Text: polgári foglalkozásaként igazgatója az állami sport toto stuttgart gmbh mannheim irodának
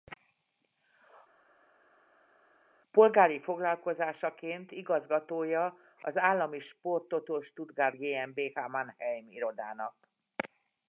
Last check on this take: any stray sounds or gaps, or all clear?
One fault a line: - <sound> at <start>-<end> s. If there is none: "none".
none